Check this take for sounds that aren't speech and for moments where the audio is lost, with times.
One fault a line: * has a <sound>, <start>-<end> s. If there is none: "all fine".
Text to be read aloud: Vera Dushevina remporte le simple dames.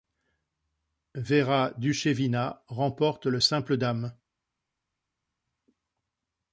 all fine